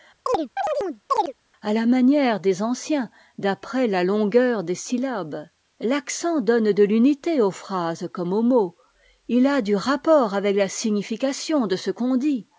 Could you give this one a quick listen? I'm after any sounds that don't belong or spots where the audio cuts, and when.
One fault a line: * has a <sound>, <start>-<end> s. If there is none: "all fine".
* has a chirp, 0.3-1.3 s